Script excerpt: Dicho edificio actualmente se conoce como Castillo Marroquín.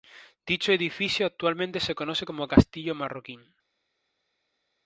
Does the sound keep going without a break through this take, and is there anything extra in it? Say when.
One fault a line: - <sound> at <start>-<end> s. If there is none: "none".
none